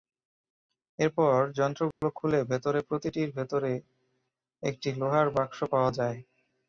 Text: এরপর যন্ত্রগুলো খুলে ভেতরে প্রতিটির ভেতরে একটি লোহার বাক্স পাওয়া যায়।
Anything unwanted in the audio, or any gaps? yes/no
yes